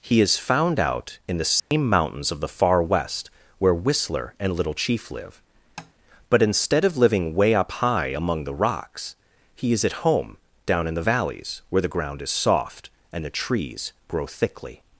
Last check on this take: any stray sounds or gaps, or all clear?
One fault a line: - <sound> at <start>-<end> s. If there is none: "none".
- dropout at 1.6-1.7 s
- tap at 5.8-5.9 s